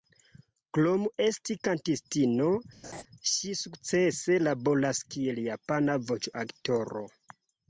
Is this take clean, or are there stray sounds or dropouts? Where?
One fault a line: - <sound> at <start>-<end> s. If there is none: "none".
- laugh at 2.8-3.0 s